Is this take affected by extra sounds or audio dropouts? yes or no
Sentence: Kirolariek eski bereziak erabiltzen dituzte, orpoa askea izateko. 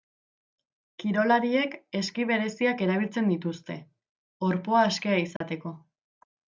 yes